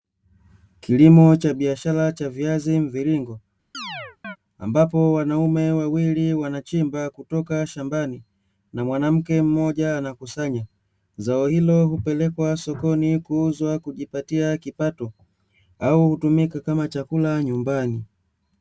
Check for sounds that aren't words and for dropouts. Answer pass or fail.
fail